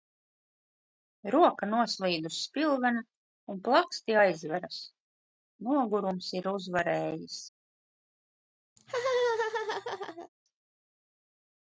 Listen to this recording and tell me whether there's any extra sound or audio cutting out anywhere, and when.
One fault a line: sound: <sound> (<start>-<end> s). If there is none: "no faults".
sound: laugh (8.8-10.3 s)